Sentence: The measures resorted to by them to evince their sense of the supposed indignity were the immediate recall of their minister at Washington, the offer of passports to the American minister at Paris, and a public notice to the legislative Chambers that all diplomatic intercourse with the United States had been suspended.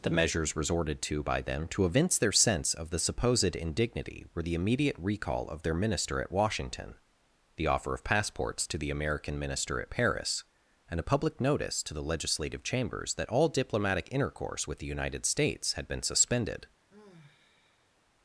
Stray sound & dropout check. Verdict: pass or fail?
fail